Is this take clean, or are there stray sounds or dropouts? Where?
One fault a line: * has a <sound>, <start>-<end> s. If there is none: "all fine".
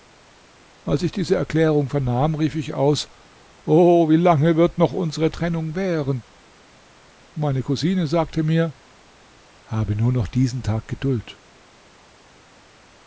all fine